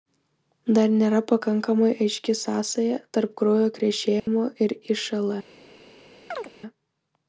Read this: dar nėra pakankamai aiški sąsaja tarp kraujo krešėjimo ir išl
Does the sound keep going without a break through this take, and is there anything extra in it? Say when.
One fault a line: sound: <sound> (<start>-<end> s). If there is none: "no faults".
sound: dropout (4.2-4.3 s)
sound: chirp (6.3-6.5 s)